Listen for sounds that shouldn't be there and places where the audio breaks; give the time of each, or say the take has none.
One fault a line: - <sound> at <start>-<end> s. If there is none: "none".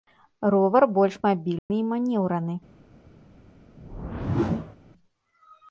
- dropout at 1.6-1.7 s
- whoosh at 3.8-4.8 s